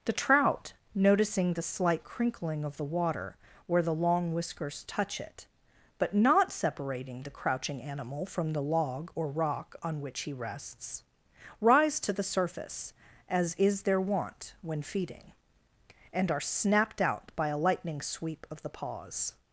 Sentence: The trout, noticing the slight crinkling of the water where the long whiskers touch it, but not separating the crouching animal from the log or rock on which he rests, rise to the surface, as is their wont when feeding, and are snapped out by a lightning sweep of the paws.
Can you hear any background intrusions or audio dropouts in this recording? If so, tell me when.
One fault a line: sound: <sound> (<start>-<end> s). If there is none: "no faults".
no faults